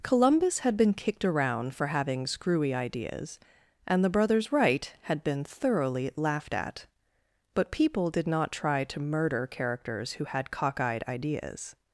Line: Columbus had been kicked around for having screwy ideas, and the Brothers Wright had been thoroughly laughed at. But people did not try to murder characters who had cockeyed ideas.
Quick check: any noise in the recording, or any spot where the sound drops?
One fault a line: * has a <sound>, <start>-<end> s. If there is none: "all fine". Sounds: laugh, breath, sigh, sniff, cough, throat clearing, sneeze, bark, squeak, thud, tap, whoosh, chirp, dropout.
all fine